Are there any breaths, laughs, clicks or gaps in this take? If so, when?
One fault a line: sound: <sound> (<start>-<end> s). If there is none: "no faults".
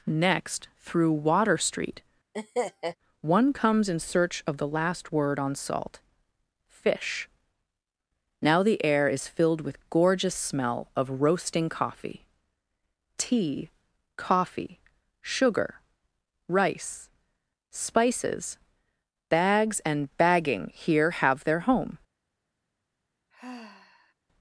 sound: laugh (2.3-3.0 s)
sound: sigh (23.3-24.1 s)